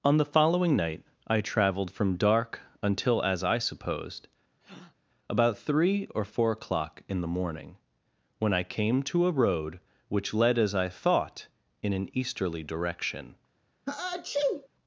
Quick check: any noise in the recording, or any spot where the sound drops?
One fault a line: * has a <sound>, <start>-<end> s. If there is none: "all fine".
* has a breath, 4.6-4.9 s
* has a sneeze, 13.9-14.7 s